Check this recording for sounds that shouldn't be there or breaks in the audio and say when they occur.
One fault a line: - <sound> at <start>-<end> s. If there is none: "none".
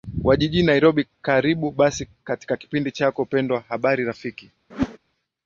- whoosh at 4.7-5.0 s